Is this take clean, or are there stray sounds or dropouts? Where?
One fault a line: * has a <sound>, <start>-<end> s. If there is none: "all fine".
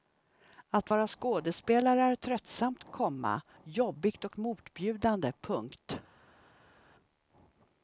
all fine